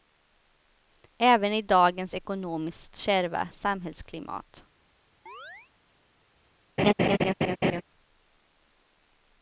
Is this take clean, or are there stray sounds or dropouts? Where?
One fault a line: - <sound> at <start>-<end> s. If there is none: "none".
- chirp at 5.3-5.7 s
- laugh at 6.8-7.8 s